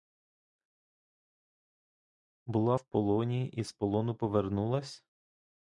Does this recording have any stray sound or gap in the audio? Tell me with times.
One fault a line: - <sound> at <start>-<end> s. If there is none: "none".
none